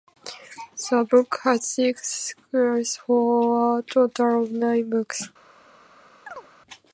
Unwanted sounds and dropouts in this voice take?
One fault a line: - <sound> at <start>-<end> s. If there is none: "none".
- chirp at 6.3-6.5 s